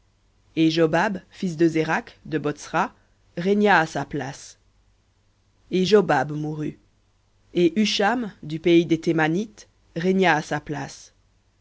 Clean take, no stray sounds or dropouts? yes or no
yes